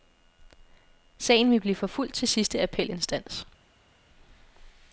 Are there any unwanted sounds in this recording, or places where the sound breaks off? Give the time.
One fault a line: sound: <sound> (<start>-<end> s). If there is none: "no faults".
no faults